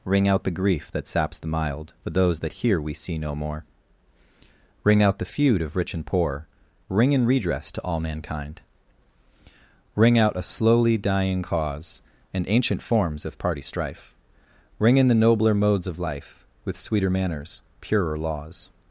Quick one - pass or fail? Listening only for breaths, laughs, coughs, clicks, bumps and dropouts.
pass